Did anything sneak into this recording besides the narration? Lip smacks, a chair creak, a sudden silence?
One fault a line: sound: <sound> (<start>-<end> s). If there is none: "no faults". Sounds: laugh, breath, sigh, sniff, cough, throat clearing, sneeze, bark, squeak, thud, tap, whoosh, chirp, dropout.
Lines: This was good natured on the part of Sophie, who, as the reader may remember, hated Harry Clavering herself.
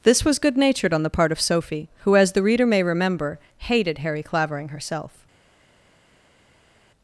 no faults